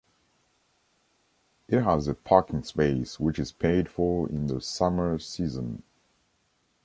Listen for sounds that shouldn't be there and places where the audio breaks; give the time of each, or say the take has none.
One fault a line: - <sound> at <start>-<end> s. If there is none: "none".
none